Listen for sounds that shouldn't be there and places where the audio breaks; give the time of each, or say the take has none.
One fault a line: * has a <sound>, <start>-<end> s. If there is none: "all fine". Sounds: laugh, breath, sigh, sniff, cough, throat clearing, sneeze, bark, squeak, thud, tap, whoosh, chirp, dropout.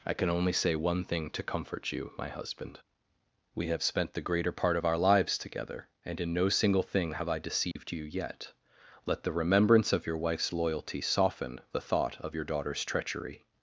* has a dropout, 7.7-7.8 s